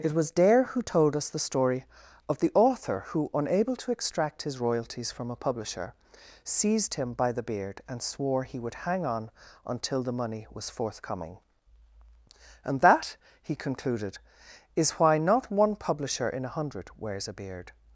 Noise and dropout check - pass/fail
pass